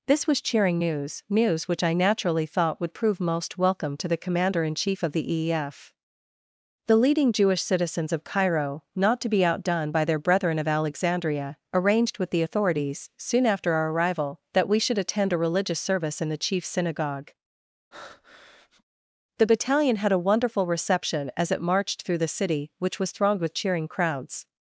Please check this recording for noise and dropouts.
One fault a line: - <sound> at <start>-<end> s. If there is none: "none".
- breath at 17.9-18.8 s